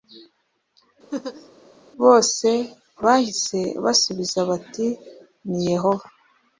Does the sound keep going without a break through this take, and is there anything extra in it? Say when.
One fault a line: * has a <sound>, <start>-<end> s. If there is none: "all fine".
* has a laugh, 1.1-1.5 s